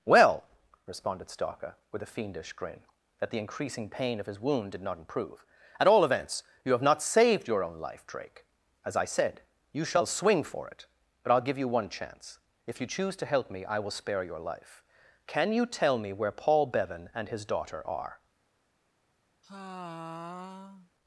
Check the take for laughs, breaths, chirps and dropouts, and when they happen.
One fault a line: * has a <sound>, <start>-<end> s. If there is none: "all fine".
* has a sigh, 19.4-20.9 s